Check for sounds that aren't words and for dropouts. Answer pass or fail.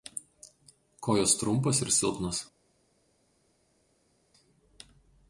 pass